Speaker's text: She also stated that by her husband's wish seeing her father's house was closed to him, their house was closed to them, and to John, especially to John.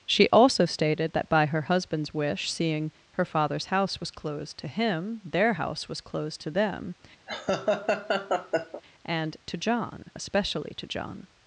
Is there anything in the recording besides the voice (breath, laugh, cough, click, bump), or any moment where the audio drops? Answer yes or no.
yes